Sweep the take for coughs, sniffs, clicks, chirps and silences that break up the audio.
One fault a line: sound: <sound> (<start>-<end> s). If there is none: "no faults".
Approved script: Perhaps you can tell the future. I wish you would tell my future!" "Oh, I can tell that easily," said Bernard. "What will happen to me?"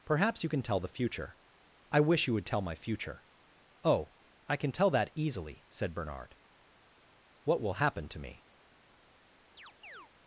sound: chirp (9.6-10.1 s)